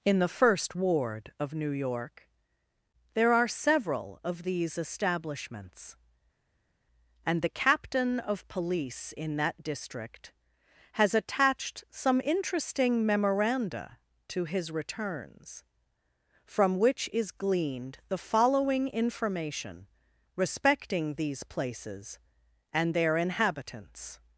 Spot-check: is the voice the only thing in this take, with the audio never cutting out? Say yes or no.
yes